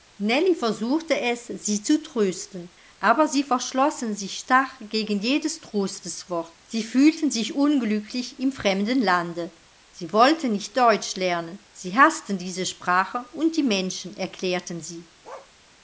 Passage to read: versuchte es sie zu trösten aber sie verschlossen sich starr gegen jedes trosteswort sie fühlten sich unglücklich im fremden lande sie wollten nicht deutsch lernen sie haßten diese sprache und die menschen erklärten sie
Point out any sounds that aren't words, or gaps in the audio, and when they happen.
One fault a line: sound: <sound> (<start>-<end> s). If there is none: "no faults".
sound: bark (15.2-15.5 s)